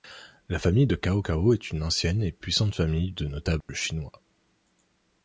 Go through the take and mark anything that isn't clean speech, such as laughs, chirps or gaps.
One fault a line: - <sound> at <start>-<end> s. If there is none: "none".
- dropout at 3.6-3.7 s